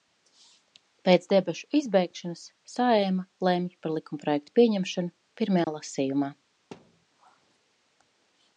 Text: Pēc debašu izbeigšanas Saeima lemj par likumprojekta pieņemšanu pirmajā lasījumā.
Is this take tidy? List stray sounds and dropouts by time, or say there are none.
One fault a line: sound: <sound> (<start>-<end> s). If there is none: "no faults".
sound: dropout (5.6-5.7 s)
sound: thud (6.7-7.1 s)